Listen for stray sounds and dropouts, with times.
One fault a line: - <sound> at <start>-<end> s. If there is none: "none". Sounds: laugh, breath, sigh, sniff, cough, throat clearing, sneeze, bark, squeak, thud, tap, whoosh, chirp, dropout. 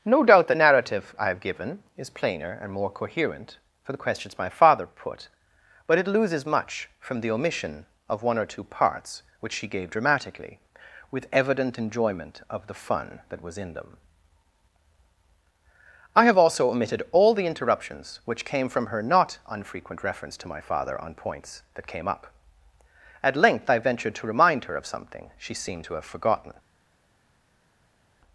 none